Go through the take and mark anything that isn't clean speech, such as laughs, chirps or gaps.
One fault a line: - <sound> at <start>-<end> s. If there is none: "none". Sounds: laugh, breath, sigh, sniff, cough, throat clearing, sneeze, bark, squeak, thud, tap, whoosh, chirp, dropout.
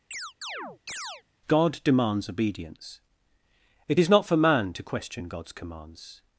- chirp at 0.1-1.2 s